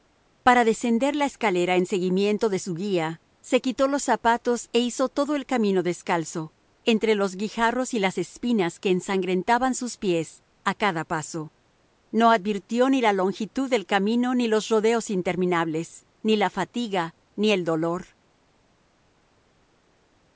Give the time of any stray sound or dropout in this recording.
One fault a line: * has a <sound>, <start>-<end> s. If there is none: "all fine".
all fine